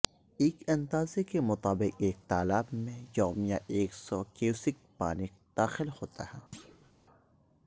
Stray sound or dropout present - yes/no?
yes